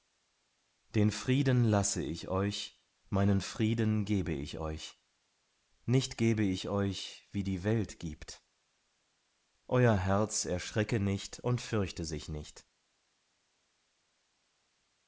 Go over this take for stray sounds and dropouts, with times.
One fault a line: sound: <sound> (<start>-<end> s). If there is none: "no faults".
no faults